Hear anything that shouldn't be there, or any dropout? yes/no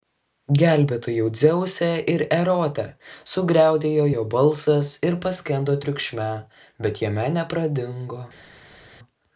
no